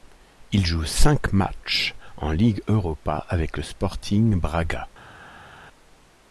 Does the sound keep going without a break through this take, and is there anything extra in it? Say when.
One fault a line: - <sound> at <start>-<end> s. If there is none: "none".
none